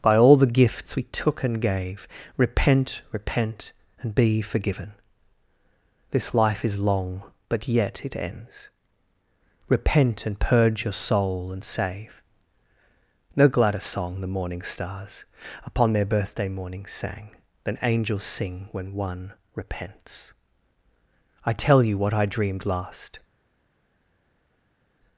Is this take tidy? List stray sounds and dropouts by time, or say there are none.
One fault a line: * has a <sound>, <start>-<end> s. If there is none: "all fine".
all fine